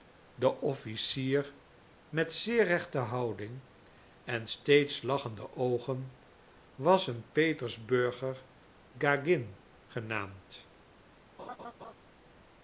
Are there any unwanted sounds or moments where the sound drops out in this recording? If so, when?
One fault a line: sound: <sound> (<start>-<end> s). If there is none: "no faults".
sound: laugh (11.4-11.9 s)